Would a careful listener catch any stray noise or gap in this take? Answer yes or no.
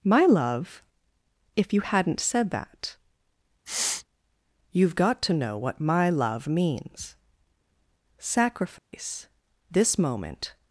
yes